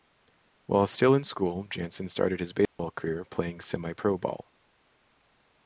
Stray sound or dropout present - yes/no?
yes